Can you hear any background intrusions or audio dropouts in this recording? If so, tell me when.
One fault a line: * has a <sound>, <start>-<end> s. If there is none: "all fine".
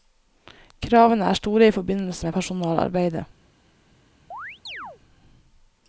* has a chirp, 4.3-5.0 s